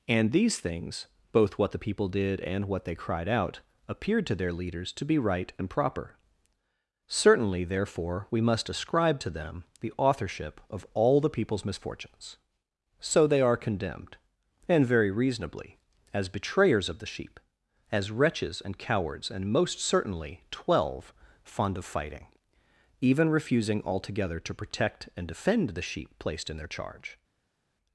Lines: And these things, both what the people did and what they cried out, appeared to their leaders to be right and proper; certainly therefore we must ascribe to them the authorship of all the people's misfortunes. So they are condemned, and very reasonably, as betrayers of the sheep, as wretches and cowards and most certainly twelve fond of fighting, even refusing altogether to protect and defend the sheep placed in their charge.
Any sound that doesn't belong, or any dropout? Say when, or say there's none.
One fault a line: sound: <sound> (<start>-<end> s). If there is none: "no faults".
no faults